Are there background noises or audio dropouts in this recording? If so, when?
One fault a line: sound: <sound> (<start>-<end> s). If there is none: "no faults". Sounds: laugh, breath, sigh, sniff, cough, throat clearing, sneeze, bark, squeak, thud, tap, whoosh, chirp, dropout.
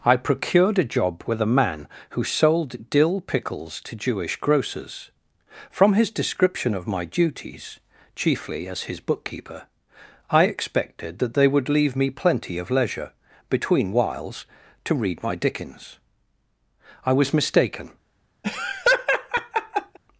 sound: laugh (18.4-20.0 s)